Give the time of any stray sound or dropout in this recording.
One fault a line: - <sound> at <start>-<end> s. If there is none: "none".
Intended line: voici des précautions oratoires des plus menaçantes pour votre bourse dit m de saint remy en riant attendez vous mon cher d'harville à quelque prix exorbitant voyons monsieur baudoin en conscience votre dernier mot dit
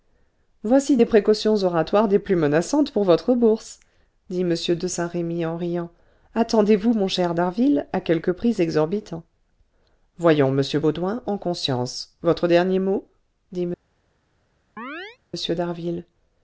- chirp at 14.8-15.2 s